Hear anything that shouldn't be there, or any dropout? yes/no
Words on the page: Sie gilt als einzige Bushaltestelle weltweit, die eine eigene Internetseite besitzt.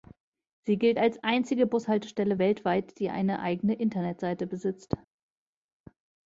no